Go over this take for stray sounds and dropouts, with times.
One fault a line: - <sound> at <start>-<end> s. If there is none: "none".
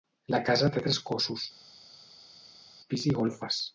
none